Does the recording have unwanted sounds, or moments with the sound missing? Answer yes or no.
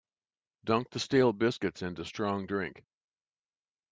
no